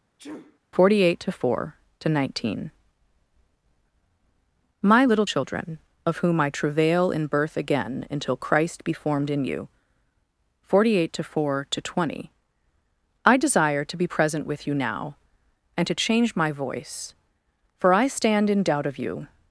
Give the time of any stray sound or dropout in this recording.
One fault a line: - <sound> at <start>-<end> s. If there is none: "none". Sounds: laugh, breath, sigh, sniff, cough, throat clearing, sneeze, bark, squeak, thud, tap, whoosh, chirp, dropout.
- sneeze at 0.2-0.6 s